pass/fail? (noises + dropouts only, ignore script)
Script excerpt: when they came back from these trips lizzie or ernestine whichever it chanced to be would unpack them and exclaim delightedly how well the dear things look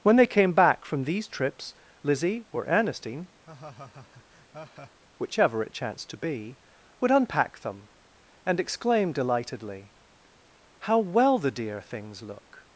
fail